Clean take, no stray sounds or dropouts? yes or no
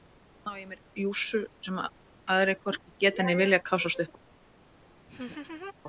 no